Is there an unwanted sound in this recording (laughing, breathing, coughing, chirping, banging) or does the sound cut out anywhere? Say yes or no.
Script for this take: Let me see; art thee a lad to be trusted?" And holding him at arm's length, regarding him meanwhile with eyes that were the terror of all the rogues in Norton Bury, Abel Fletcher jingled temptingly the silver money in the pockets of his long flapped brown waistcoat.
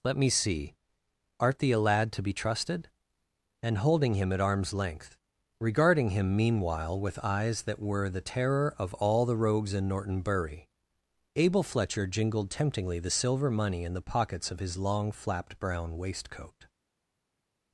no